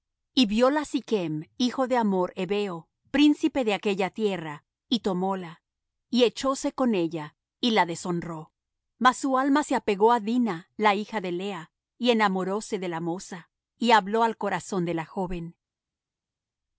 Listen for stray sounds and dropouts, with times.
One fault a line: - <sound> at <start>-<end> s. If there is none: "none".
none